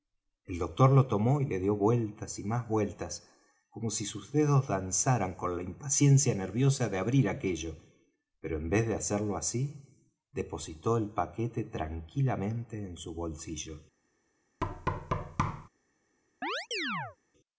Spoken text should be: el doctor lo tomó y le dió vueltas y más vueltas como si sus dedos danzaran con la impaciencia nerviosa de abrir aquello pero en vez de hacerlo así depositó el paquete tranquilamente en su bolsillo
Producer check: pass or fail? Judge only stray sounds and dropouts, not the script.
fail